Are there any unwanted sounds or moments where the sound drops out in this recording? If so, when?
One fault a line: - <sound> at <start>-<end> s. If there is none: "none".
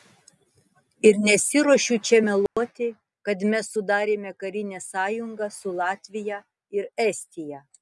- dropout at 2.5-2.6 s